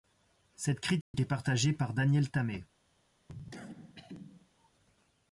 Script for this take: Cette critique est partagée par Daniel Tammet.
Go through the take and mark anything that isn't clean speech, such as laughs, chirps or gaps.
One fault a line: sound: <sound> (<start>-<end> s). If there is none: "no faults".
sound: dropout (1.0-1.1 s)
sound: cough (3.3-4.7 s)